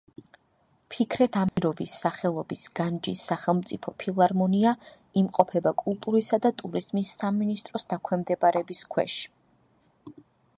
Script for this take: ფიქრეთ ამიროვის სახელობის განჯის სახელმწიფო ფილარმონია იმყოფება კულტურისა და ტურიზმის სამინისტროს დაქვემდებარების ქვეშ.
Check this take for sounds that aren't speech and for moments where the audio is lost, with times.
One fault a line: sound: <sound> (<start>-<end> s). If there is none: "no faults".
sound: dropout (1.5-1.6 s)